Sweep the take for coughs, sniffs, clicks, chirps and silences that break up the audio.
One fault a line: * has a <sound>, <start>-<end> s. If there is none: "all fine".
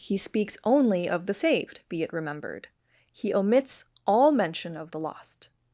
all fine